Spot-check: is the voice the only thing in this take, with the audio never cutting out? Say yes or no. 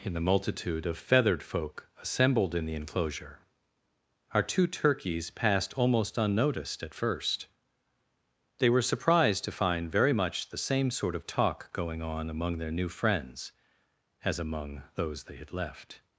yes